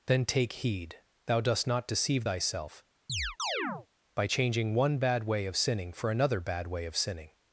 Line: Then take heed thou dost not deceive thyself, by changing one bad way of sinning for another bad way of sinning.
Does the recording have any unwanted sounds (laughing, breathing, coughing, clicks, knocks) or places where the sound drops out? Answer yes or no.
yes